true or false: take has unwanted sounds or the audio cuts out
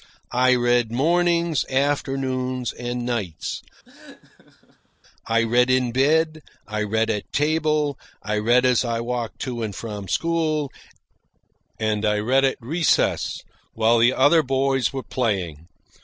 true